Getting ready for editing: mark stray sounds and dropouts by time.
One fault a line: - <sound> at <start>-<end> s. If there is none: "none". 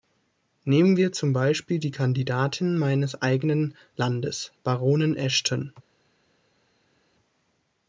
none